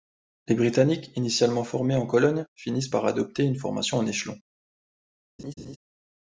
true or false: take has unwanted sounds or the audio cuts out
true